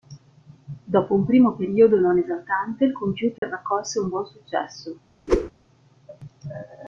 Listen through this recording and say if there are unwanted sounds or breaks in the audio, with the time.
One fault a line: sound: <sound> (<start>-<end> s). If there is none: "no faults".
sound: dropout (3.4-3.4 s)
sound: whoosh (5.3-5.5 s)